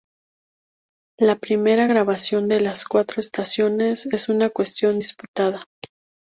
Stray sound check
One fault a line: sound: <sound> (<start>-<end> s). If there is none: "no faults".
no faults